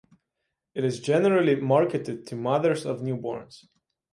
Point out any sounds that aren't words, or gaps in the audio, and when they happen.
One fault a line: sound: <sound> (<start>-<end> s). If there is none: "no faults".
no faults